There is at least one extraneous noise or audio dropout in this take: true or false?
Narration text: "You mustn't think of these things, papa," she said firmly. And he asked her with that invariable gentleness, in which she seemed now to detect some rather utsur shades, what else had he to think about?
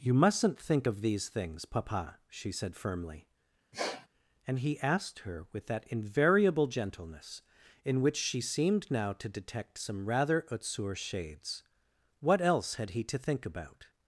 true